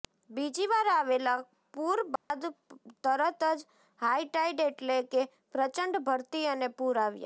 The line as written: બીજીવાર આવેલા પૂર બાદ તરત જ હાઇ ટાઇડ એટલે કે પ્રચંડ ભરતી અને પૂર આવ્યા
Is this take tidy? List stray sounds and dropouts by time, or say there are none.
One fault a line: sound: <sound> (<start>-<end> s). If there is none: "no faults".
sound: dropout (2.2-2.3 s)